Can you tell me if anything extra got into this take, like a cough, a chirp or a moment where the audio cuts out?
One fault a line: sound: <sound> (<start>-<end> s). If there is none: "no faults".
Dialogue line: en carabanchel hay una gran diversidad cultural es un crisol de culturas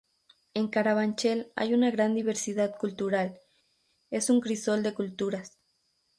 no faults